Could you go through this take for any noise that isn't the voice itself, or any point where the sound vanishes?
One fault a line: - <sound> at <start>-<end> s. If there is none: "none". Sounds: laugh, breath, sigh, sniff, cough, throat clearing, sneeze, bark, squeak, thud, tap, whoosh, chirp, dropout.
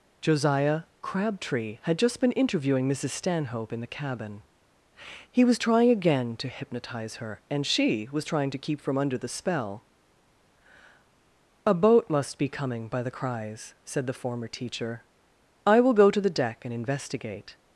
none